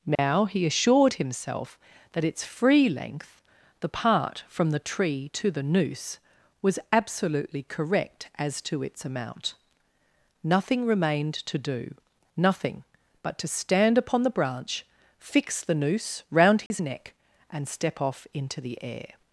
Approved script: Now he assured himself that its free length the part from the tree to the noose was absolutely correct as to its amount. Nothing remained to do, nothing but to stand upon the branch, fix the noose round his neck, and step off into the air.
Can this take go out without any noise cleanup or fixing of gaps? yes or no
no